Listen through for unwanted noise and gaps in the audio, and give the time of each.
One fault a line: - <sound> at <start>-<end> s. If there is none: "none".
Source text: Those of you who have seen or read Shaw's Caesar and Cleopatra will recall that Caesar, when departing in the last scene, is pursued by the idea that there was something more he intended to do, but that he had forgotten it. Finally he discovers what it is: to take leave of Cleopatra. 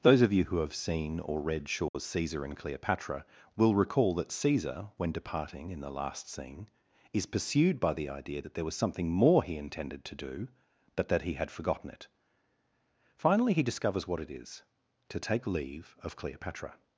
- dropout at 1.9-1.9 s